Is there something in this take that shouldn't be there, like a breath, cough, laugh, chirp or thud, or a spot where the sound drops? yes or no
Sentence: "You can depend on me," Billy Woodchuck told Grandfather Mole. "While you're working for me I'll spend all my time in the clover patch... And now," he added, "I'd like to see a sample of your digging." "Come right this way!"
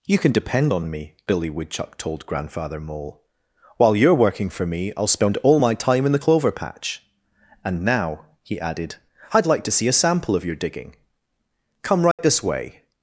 yes